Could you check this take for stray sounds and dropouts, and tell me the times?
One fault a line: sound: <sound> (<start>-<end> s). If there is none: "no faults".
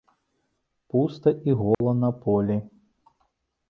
sound: dropout (1.7-1.8 s)